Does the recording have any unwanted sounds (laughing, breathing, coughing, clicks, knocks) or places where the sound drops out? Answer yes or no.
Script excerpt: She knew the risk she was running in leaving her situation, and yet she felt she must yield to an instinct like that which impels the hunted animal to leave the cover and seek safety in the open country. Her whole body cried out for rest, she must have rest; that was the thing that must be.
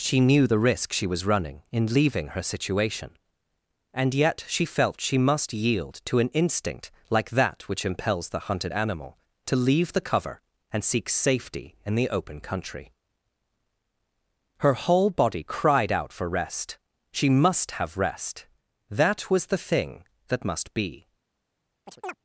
yes